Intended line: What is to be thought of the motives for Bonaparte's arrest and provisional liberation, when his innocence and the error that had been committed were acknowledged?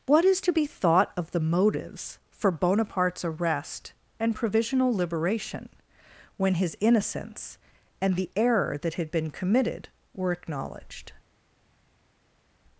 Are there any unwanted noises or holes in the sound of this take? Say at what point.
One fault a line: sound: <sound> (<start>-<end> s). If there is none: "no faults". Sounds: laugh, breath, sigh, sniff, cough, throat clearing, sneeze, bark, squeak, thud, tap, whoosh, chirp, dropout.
no faults